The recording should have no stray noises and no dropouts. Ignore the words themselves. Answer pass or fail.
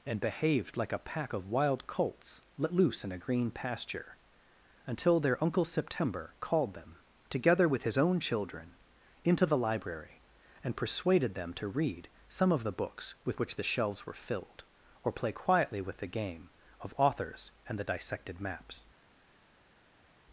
pass